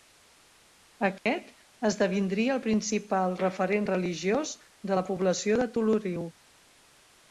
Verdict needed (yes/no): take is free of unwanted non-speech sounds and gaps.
no